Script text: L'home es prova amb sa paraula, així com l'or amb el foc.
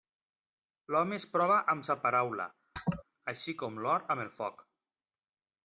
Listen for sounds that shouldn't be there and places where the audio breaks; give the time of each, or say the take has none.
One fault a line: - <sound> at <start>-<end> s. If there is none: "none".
- laugh at 2.8-3.0 s